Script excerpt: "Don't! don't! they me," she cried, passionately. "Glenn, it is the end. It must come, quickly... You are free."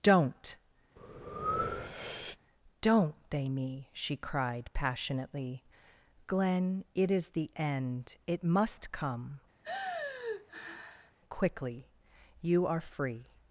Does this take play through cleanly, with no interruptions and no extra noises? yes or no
no